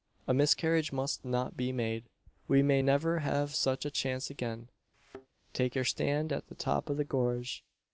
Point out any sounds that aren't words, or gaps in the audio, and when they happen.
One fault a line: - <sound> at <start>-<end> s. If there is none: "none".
- thud at 4.9-5.3 s